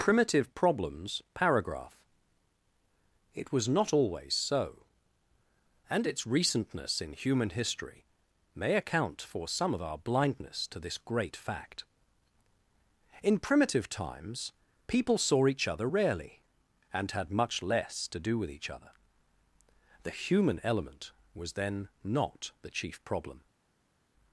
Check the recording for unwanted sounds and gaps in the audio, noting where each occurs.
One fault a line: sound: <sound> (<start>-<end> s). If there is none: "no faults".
no faults